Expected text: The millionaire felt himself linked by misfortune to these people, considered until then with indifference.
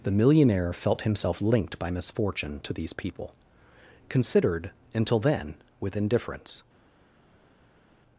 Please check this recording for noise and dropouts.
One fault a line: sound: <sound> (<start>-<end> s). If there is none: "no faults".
no faults